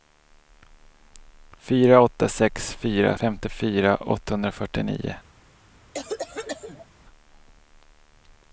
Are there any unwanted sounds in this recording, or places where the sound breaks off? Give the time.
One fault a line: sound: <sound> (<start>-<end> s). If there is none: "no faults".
sound: cough (5.9-6.9 s)